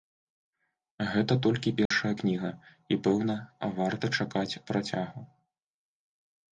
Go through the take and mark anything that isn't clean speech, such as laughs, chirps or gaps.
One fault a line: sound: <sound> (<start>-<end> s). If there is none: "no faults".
sound: dropout (1.9-1.9 s)